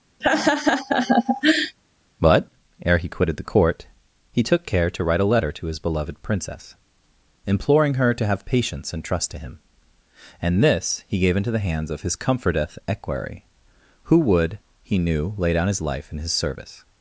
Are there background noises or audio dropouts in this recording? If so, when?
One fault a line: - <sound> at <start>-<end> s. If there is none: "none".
- laugh at 0.2-1.8 s